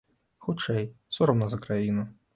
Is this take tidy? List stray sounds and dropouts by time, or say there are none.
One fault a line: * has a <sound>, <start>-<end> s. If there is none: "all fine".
all fine